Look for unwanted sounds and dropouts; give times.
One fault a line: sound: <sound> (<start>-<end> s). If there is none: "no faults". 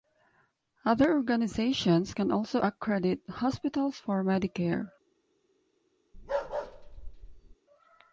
sound: bark (6.1-7.6 s)